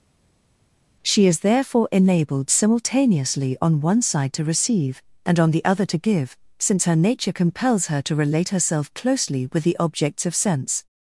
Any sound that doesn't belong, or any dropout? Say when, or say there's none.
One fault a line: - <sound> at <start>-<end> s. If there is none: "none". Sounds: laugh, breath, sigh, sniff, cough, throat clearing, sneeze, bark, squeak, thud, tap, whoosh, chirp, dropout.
none